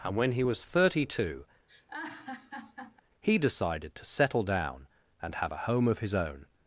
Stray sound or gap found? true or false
true